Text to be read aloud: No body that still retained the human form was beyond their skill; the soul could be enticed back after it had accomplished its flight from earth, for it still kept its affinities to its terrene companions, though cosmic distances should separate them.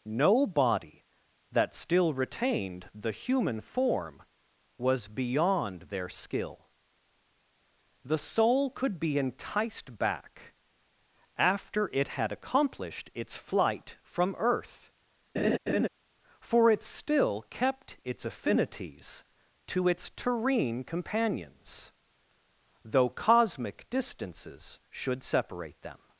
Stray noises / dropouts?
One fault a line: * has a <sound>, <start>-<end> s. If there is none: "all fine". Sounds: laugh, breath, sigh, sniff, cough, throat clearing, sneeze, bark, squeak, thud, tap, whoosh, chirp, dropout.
* has a laugh, 15.4-15.9 s